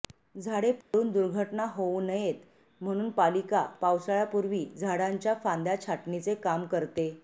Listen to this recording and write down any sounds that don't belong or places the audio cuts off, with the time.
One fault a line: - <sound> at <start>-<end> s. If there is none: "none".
- dropout at 0.8-0.9 s